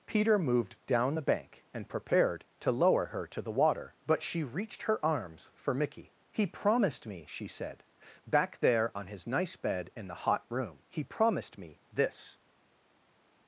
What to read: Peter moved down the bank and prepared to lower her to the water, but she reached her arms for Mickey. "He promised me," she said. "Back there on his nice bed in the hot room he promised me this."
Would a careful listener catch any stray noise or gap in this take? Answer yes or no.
no